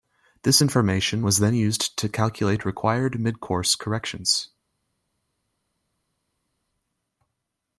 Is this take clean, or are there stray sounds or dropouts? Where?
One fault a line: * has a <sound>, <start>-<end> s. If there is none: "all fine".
all fine